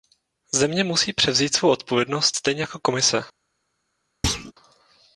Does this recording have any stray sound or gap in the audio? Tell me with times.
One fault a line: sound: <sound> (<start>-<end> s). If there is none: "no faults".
sound: thud (4.2-4.5 s)